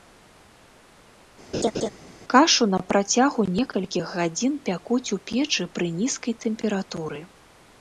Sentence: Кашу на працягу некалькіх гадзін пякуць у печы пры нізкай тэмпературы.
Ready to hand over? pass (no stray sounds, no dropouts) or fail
fail